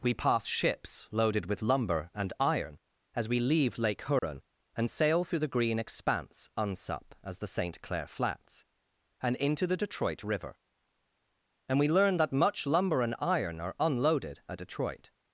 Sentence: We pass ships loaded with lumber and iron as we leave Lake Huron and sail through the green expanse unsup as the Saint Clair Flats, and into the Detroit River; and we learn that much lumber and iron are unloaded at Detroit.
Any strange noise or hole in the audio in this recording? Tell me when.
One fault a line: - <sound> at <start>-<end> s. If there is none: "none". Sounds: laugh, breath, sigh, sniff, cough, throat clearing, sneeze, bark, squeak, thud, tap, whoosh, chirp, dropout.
- dropout at 4.2-4.2 s